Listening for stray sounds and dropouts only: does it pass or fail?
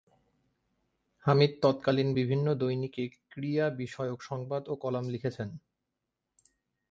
pass